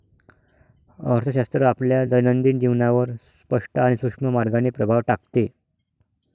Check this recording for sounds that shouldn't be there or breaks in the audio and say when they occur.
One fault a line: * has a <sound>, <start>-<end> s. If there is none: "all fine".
all fine